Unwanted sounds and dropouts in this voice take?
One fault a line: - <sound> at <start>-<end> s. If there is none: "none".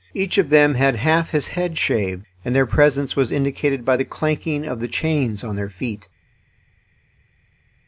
none